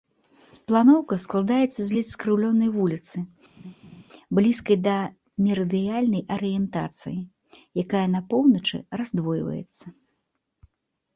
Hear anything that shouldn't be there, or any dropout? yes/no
yes